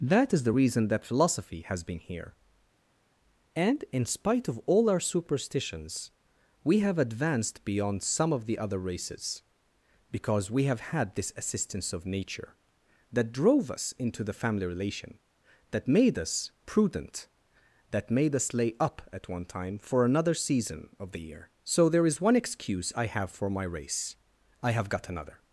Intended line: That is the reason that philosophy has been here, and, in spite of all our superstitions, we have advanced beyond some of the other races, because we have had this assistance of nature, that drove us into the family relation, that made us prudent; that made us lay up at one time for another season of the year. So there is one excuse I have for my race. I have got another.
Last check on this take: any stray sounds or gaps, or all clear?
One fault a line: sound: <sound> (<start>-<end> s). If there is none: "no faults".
no faults